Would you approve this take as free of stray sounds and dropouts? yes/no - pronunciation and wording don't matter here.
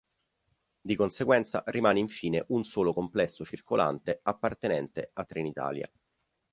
yes